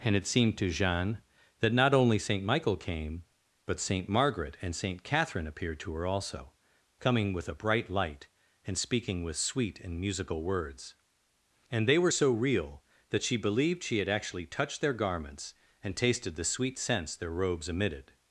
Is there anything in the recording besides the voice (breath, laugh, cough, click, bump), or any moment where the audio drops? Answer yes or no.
no